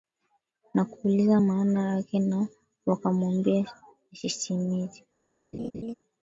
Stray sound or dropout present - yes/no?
yes